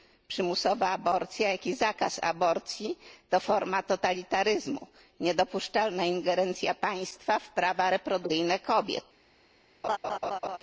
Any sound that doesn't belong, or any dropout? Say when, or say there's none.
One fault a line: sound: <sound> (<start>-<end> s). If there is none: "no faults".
sound: laugh (9.8-10.6 s)